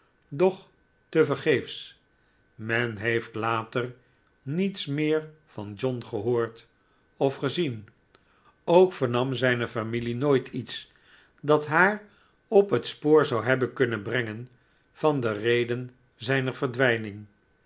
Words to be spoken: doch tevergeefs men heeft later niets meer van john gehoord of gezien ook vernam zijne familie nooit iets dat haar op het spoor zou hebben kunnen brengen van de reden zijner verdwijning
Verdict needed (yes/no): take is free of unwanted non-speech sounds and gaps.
yes